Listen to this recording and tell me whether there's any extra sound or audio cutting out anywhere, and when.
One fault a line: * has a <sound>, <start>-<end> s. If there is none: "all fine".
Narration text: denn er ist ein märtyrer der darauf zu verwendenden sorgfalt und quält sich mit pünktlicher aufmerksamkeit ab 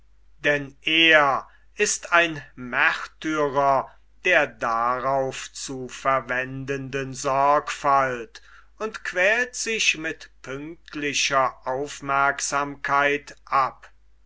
all fine